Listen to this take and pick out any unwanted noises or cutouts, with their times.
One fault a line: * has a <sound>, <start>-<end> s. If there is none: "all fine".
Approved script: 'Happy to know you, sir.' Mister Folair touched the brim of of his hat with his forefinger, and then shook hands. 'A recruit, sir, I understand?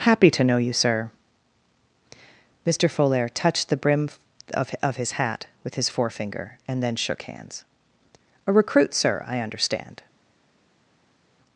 all fine